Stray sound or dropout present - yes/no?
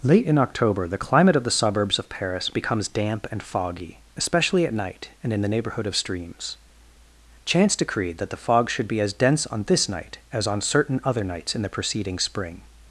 no